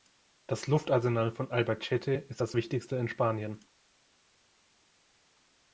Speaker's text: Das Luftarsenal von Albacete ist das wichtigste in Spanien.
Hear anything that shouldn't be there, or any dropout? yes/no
no